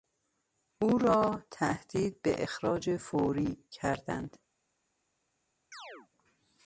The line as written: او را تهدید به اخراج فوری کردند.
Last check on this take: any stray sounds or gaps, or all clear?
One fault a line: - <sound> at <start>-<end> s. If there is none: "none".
- chirp at 5.7-6.1 s